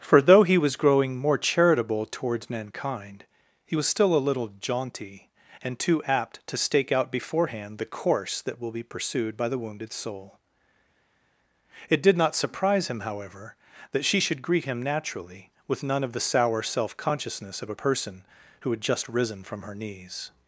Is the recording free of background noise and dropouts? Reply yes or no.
yes